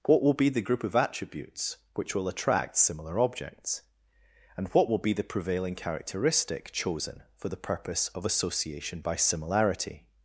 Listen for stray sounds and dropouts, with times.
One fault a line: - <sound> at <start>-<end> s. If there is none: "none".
none